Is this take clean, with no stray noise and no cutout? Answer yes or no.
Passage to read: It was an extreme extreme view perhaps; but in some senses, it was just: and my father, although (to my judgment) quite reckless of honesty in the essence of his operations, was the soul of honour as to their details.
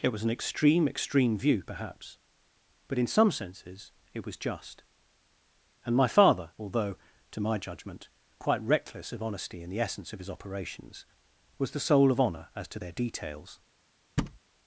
no